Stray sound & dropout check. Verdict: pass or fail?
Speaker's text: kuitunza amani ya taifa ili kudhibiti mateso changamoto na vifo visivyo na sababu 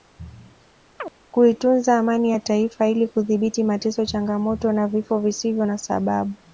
fail